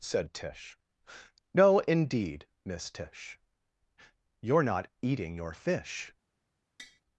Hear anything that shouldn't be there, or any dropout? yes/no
yes